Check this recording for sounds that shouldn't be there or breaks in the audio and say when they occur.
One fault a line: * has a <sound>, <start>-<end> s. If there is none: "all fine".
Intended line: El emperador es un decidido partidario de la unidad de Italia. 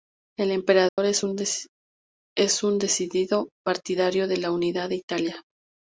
* has a dropout, 0.9-1.0 s